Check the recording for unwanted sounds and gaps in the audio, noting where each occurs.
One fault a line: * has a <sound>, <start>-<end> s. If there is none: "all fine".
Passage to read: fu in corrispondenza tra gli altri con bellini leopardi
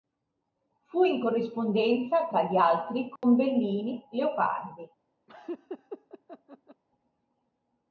* has a dropout, 3.2-3.2 s
* has a laugh, 5.3-6.8 s